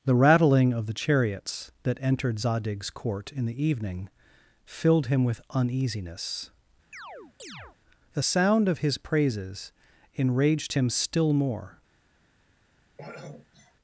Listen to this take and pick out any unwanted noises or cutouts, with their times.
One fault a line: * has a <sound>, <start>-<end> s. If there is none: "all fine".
* has a chirp, 6.9-7.8 s
* has a throat clearing, 13.0-13.7 s